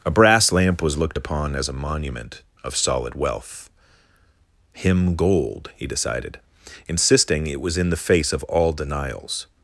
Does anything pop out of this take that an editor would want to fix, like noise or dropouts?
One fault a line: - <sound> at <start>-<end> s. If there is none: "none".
none